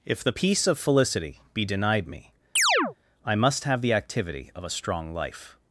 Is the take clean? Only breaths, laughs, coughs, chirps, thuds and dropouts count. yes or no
no